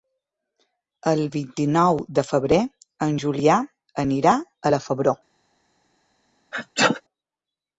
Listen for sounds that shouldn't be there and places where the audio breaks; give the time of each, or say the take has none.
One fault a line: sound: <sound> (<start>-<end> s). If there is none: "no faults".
sound: sneeze (6.5-7.0 s)